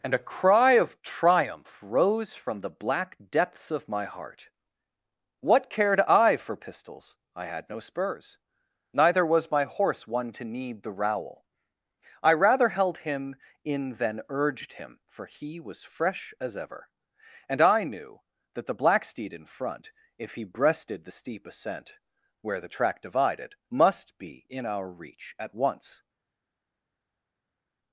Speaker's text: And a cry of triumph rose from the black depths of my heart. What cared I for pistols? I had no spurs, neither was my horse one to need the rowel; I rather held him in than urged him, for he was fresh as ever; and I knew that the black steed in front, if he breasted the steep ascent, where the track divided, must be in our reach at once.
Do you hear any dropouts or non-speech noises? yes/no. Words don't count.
no